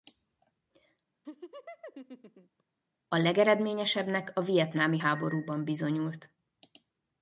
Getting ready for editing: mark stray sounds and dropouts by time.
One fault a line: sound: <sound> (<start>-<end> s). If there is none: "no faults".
sound: laugh (1.2-2.6 s)